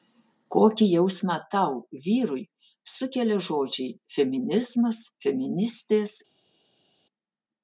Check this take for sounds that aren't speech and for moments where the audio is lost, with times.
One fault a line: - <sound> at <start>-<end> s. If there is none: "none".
none